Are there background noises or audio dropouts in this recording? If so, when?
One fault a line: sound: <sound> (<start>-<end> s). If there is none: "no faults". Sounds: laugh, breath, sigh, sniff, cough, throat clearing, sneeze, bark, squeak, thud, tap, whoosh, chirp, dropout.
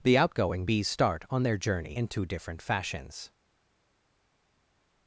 no faults